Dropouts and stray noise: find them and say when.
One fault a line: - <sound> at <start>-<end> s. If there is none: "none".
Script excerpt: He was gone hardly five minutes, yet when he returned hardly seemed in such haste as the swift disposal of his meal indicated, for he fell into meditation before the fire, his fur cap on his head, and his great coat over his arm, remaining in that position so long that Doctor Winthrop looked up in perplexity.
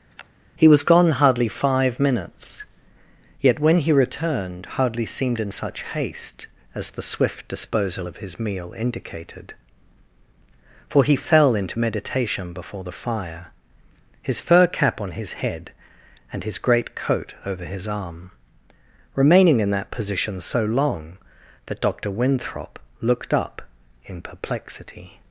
- sniff at 0.1-0.3 s